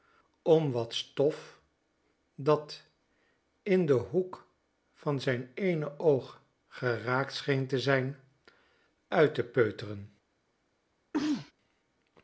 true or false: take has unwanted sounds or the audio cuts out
true